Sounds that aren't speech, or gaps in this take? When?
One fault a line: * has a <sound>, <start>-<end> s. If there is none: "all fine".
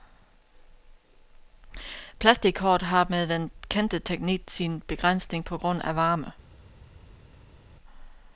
all fine